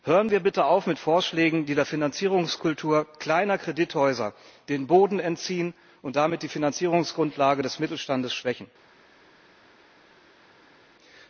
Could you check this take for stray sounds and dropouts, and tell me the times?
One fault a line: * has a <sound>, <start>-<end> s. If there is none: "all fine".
all fine